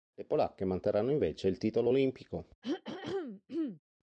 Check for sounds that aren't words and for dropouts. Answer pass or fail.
fail